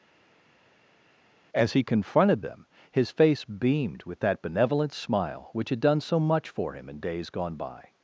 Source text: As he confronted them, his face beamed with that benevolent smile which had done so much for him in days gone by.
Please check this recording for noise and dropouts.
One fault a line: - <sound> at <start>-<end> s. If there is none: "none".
none